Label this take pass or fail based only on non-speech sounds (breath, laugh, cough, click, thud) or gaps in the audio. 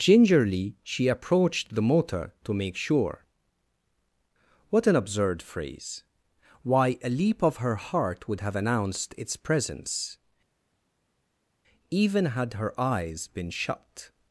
pass